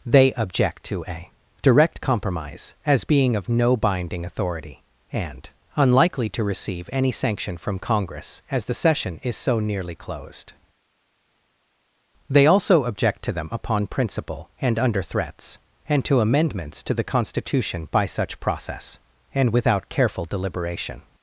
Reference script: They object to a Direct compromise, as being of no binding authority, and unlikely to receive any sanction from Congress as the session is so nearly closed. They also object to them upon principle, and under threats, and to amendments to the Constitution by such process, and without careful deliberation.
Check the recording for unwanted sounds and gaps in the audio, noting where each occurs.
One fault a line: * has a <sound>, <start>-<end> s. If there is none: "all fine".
all fine